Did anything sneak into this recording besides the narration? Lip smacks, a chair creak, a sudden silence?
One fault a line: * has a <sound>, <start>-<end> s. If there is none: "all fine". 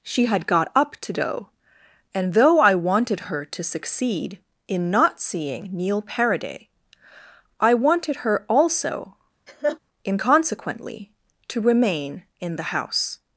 * has a laugh, 9.5-9.8 s